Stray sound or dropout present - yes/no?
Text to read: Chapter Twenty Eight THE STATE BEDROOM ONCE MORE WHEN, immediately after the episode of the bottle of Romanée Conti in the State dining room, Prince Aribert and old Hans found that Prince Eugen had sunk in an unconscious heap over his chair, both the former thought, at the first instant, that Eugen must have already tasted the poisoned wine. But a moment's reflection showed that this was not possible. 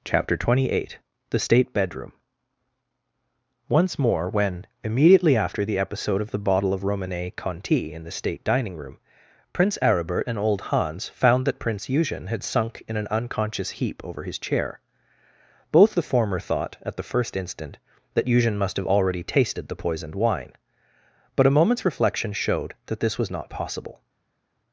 no